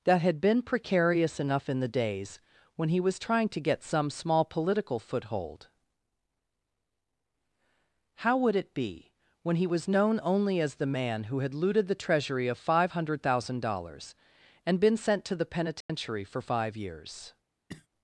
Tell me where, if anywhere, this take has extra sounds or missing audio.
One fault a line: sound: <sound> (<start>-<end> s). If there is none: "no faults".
sound: dropout (15.8-15.9 s)
sound: cough (17.7-17.9 s)